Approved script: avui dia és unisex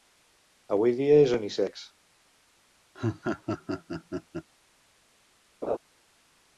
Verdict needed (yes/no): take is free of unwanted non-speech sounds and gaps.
no